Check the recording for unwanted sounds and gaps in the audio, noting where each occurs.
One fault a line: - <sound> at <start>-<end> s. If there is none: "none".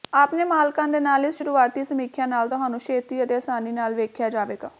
none